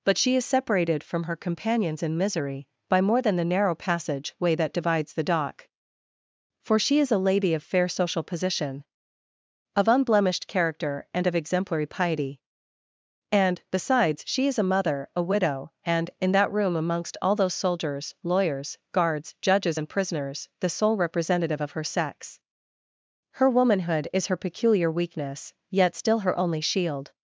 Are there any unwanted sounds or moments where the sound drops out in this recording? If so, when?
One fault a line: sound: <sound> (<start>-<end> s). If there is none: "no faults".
no faults